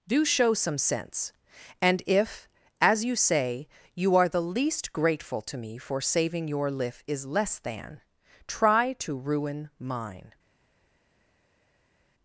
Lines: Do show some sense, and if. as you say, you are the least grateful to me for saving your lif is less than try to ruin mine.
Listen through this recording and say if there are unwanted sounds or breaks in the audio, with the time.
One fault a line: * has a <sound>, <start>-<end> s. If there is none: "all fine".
all fine